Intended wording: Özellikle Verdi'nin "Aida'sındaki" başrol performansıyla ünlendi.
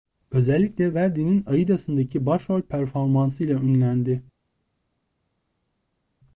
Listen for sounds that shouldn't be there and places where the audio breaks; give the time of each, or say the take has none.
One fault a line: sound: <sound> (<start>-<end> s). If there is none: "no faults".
no faults